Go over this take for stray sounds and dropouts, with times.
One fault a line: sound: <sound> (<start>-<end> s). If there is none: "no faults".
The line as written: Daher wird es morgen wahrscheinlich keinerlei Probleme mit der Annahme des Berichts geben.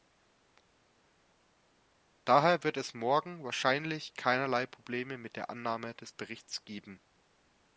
no faults